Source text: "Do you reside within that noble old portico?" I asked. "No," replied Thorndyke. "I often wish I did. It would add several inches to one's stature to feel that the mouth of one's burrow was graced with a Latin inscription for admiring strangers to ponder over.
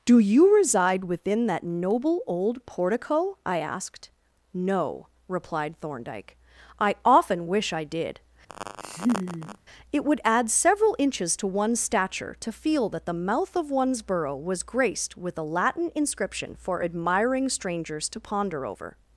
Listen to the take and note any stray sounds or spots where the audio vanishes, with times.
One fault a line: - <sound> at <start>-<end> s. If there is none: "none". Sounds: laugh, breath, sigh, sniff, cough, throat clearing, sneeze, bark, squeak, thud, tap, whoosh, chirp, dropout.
- laugh at 8.5-9.6 s